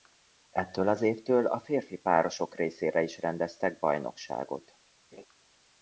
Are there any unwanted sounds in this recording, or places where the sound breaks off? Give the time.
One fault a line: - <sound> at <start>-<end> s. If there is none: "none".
- laugh at 5.1-5.3 s